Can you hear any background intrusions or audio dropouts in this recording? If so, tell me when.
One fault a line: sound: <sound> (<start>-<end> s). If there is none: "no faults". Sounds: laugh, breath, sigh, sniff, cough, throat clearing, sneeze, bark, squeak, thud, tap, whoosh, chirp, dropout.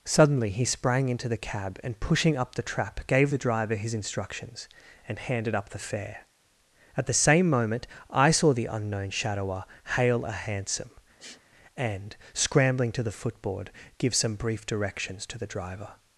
sound: sniff (11.2-11.4 s)